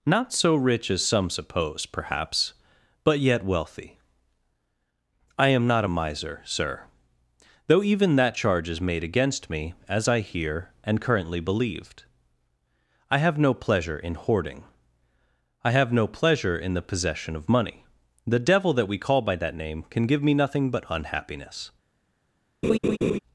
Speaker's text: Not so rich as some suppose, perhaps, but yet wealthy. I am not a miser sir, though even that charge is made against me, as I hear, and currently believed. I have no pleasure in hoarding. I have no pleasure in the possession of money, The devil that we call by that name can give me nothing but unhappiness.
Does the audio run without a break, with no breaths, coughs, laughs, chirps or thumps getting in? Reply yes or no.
no